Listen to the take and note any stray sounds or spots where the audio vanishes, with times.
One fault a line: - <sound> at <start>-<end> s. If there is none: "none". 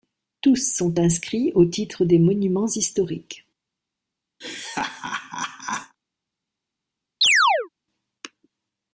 - laugh at 4.4-6.0 s
- chirp at 7.2-7.7 s